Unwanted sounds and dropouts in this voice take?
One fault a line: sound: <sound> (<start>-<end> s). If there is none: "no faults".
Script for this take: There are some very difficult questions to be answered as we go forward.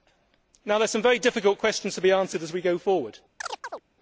sound: chirp (3.4-3.8 s)